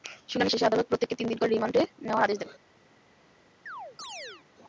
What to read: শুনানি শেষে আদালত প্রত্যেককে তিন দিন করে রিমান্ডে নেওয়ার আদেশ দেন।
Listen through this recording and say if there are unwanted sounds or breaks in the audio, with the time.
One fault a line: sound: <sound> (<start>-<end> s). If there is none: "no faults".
sound: chirp (3.7-4.4 s)